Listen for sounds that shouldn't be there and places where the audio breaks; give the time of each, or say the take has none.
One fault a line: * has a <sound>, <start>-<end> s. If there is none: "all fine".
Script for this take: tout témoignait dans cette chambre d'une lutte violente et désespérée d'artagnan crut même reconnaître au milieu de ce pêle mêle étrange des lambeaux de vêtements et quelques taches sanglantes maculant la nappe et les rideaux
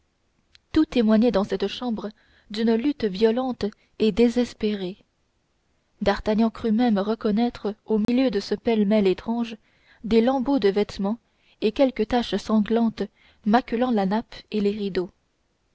* has a dropout, 8.0-8.1 s